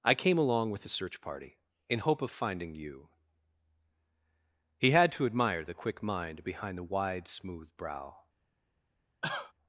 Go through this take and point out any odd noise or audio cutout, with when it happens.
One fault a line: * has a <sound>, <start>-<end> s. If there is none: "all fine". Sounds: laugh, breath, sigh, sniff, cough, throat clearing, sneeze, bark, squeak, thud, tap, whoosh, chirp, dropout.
* has a cough, 9.2-9.5 s